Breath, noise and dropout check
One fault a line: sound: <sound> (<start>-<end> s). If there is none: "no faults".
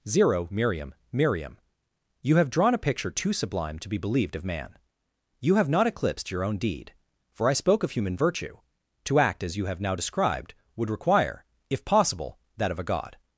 no faults